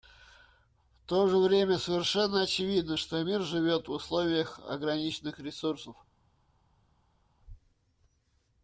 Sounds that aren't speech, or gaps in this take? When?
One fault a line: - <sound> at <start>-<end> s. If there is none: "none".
none